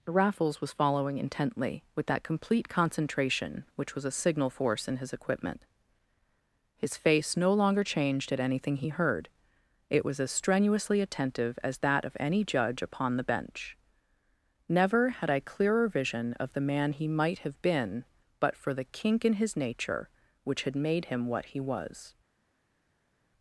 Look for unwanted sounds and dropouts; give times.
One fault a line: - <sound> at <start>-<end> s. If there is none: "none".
none